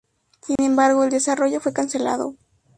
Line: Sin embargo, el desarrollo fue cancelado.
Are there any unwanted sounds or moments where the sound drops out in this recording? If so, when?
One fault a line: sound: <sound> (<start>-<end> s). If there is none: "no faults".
sound: dropout (0.6-0.6 s)